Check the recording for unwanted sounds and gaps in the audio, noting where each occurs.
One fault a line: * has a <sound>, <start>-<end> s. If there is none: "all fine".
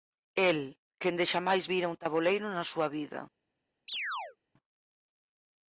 * has a chirp, 3.9-4.4 s